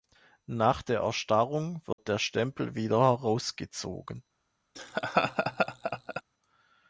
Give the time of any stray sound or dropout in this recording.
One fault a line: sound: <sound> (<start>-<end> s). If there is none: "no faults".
sound: dropout (1.9-2.0 s)
sound: laugh (4.7-6.2 s)